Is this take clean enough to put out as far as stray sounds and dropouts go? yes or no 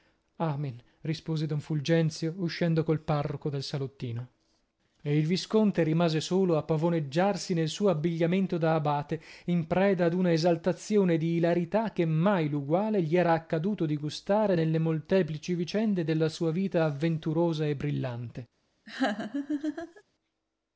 no